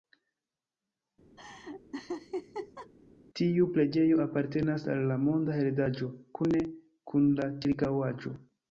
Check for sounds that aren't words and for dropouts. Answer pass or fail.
fail